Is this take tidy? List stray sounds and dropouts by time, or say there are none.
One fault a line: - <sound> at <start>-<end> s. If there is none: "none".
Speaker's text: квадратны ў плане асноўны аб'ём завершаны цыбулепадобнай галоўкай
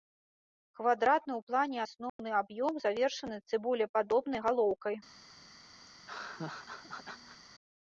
- dropout at 2.1-2.2 s
- laugh at 5.9-7.4 s